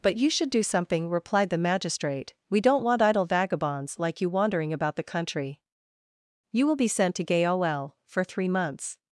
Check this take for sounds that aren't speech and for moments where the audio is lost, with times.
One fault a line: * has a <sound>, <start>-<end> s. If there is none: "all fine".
all fine